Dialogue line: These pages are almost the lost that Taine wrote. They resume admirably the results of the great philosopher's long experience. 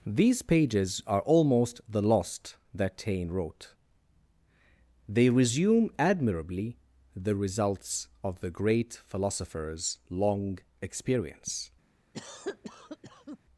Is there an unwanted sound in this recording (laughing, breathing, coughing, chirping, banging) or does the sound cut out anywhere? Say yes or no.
yes